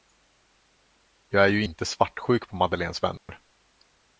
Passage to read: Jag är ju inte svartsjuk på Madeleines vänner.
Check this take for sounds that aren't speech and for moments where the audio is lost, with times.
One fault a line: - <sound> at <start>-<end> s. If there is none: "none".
- dropout at 3.2-3.3 s